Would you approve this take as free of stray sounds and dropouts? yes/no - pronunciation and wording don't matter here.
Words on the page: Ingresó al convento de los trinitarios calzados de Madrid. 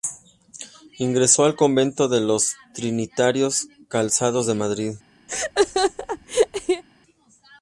no